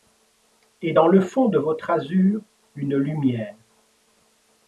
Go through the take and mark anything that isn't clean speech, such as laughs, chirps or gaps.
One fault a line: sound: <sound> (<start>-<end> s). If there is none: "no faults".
no faults